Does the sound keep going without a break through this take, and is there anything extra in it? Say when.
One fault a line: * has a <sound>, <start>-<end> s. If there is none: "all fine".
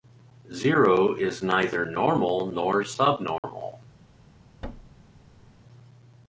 * has a dropout, 3.4-3.4 s
* has a thud, 4.6-5.6 s